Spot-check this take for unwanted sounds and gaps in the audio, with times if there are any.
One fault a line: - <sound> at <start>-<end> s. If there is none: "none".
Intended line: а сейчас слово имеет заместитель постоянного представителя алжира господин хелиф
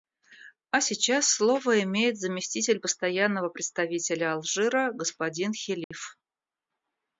- dropout at 5.8-5.9 s